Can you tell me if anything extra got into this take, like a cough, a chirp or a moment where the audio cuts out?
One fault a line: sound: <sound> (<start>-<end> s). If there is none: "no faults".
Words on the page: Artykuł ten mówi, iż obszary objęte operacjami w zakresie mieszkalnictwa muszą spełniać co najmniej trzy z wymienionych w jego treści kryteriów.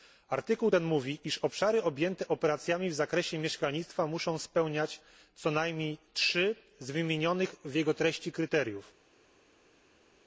no faults